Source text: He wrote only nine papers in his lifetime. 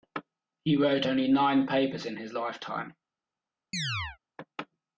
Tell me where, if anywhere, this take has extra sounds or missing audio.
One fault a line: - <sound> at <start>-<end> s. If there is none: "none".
- chirp at 3.7-4.2 s